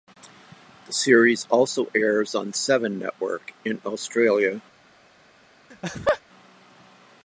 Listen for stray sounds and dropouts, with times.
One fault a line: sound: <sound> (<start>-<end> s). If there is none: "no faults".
sound: laugh (5.7-6.2 s)